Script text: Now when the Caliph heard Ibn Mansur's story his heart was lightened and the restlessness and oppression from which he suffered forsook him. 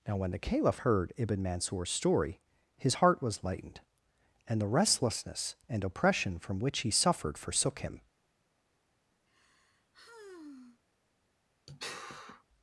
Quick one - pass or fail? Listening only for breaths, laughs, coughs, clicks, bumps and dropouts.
fail